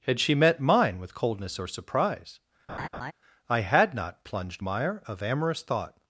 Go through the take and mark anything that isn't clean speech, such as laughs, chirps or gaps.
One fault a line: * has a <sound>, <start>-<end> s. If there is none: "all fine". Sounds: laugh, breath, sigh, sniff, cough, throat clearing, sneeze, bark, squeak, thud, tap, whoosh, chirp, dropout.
* has a laugh, 2.7-3.1 s